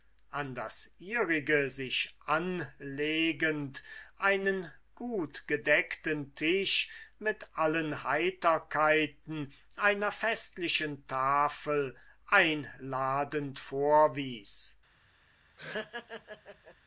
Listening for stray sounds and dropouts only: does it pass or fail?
fail